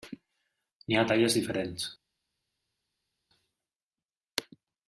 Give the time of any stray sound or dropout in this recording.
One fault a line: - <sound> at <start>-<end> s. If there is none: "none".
none